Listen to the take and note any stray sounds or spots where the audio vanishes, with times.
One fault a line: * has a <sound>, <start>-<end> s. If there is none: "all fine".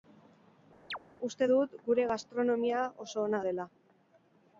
* has a chirp, 0.9-1.0 s